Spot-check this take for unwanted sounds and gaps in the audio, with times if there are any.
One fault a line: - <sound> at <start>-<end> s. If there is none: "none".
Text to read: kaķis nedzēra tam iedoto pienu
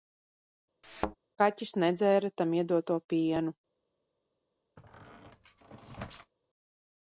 - thud at 0.8-1.2 s
- squeak at 4.8-6.3 s